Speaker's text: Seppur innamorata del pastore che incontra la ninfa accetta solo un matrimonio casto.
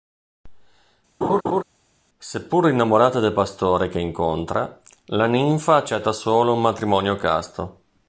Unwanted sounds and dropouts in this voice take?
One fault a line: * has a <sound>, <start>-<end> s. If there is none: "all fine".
* has a laugh, 1.2-1.6 s